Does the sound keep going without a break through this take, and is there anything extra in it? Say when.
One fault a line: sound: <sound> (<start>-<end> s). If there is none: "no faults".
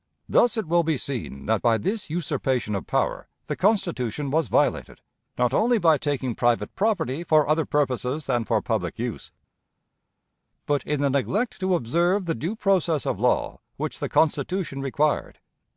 no faults